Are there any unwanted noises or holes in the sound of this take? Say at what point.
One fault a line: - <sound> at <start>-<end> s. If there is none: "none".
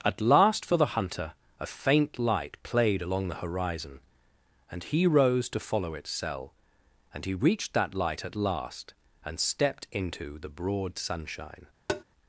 - tap at 11.9-12.0 s